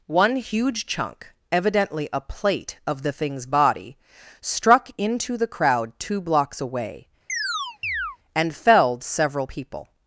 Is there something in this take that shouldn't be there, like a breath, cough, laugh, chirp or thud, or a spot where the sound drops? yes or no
yes